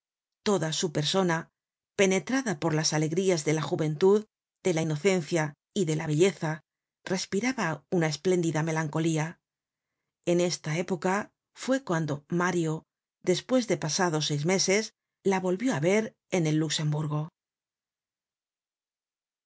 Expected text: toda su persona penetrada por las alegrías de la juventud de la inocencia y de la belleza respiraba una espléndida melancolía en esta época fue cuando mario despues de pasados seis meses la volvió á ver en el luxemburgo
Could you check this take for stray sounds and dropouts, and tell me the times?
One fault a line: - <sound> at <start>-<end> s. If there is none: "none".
none